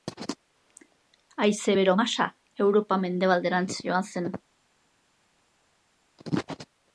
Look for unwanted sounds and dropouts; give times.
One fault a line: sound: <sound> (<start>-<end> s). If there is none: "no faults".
no faults